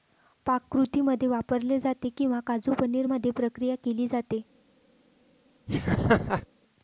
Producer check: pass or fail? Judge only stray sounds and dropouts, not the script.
fail